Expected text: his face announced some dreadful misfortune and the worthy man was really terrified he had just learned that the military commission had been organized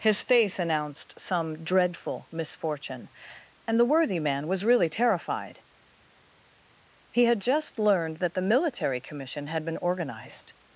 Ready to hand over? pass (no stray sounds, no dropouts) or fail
pass